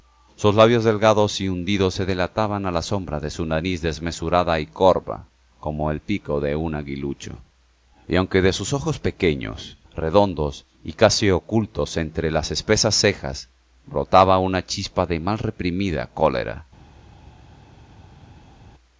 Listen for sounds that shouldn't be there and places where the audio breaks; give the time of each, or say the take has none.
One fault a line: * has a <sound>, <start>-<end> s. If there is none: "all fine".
all fine